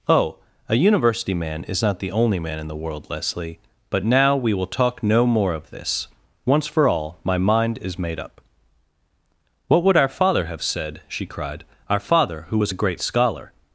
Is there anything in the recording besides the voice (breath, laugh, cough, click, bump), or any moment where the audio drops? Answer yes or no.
no